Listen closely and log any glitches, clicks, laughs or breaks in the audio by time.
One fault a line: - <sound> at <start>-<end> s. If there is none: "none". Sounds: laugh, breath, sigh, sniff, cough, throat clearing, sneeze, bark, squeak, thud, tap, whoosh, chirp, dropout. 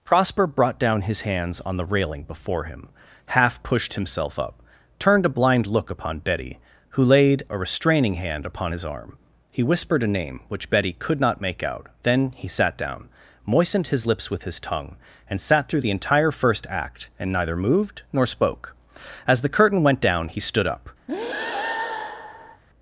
- breath at 21.1-22.6 s